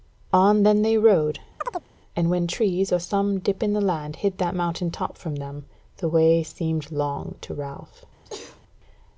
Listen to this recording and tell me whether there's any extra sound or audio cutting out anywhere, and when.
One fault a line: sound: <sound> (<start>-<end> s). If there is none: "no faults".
sound: chirp (1.6-1.9 s)
sound: sneeze (8.2-8.6 s)